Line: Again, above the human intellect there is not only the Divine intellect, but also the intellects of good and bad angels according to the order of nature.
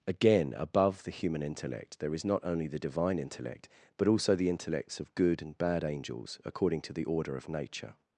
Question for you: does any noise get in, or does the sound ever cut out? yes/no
no